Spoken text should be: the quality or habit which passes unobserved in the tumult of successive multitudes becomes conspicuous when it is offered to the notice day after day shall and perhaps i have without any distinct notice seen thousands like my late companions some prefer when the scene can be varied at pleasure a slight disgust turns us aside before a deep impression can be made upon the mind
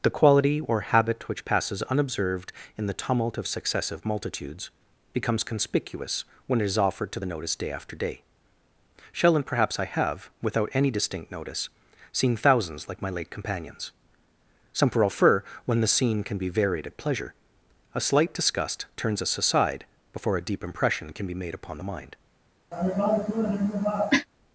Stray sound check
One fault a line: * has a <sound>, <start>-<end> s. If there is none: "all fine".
* has a cough, 22.7-24.3 s